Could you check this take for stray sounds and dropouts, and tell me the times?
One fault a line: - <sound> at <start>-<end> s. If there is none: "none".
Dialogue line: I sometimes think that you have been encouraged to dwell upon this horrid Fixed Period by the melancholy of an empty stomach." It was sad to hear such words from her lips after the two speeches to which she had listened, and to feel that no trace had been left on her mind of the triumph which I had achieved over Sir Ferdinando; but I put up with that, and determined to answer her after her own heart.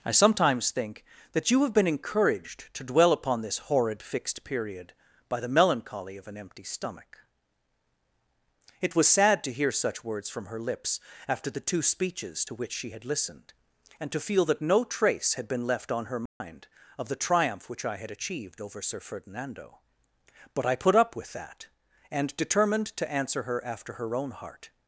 - dropout at 16.3-16.4 s